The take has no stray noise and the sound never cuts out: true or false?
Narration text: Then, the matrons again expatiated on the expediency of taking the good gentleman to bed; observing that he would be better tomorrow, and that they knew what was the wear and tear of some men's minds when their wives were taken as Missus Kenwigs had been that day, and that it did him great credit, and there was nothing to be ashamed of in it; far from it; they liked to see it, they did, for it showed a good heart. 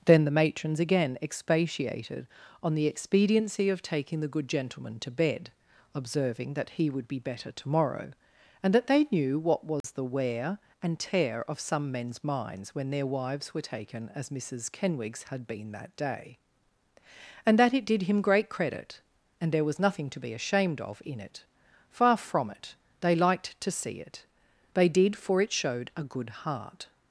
false